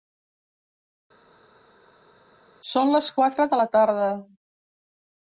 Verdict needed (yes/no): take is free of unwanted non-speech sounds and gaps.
yes